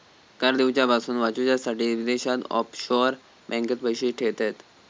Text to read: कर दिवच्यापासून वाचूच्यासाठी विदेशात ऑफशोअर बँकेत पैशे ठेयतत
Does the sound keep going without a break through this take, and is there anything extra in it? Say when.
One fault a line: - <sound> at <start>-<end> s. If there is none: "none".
none